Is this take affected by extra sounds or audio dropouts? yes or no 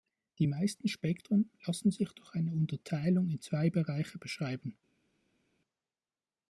no